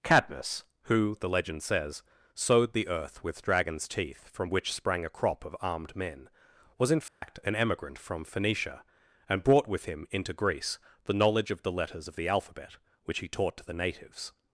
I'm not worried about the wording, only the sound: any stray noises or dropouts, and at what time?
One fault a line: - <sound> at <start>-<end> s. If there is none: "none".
- dropout at 7.1-7.2 s